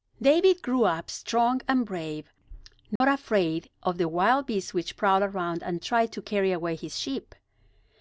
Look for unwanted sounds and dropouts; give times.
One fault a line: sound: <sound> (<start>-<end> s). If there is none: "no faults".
sound: dropout (3.0-3.0 s)